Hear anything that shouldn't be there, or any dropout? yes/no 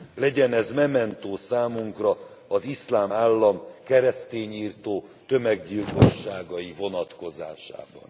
no